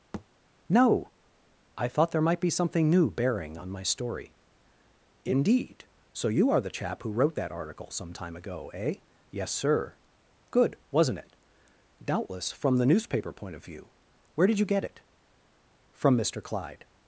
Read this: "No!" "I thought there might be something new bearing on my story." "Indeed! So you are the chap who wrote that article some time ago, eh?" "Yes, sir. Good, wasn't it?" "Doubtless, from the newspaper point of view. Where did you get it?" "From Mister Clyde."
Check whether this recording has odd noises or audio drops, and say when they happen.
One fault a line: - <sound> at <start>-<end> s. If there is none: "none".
- thud at 0.1-0.3 s